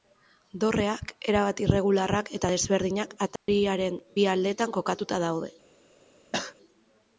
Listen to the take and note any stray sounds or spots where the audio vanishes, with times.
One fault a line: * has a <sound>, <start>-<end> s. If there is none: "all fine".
* has a dropout, 3.4-3.5 s
* has a cough, 6.3-6.6 s